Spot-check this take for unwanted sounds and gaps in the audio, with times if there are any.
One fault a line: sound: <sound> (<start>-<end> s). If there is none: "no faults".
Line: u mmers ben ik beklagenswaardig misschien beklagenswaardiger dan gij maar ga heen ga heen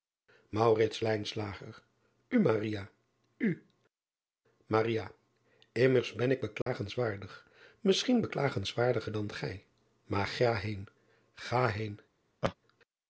sound: dropout (6.6-6.7 s)
sound: laugh (12.4-12.5 s)